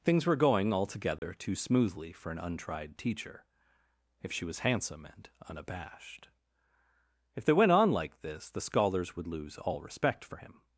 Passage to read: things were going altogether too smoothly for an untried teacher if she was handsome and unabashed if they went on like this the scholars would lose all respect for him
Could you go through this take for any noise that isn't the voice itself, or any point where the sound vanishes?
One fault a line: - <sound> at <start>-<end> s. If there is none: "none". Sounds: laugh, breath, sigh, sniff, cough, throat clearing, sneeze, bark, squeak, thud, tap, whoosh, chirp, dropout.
- dropout at 1.2-1.2 s